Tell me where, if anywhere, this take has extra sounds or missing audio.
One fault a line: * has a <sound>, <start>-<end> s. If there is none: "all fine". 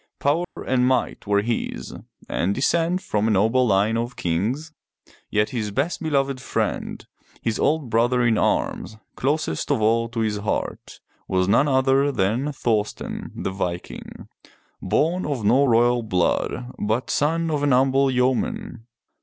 * has a dropout, 0.4-0.6 s